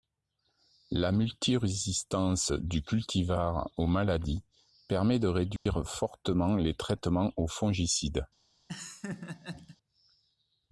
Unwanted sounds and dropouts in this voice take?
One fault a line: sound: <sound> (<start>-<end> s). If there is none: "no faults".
sound: dropout (5.6-5.7 s)
sound: laugh (8.7-9.8 s)